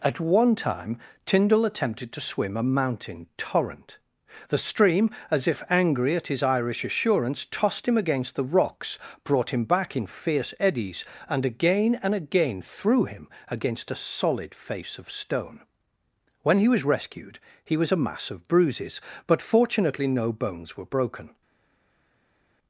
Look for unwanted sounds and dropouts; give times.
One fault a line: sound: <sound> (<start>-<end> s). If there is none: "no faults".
no faults